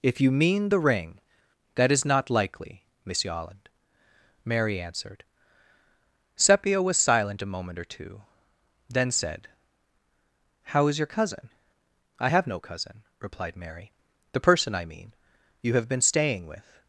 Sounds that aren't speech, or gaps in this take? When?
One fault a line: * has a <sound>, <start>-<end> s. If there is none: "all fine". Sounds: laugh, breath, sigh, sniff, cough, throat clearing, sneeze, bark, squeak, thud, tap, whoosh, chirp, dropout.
all fine